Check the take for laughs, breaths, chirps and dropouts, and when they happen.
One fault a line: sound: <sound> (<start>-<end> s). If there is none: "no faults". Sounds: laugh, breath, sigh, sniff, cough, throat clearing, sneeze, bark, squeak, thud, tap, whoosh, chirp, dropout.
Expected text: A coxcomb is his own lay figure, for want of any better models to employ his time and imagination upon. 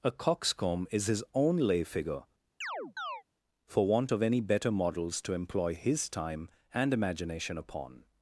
sound: chirp (2.6-3.2 s)